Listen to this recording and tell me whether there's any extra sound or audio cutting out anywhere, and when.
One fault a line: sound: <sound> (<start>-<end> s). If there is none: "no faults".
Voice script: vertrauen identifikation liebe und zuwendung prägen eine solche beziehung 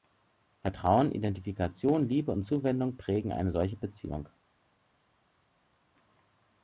no faults